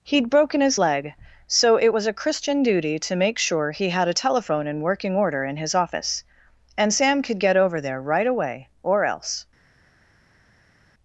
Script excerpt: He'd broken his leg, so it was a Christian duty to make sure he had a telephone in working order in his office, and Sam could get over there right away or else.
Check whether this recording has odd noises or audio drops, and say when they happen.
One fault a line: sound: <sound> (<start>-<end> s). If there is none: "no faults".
no faults